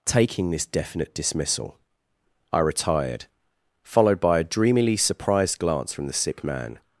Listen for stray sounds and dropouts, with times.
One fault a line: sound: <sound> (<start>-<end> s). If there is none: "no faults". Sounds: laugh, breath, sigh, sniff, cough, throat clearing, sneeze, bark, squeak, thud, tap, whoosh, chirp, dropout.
no faults